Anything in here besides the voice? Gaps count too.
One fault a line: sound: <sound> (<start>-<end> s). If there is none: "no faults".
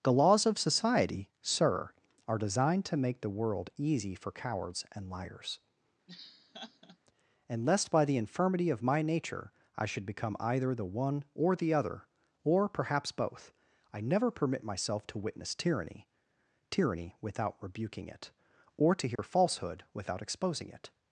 sound: laugh (6.1-7.0 s)
sound: dropout (19.2-19.2 s)